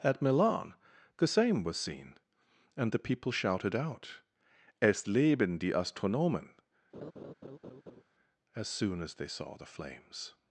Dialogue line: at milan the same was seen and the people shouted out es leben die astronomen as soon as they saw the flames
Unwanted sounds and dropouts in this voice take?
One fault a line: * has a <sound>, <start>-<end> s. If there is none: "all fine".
* has a laugh, 6.9-8.0 s